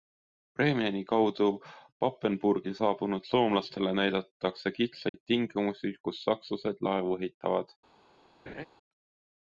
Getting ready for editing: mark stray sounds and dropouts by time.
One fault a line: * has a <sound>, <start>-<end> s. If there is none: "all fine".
* has a dropout, 5.1-5.1 s
* has a laugh, 8.5-8.7 s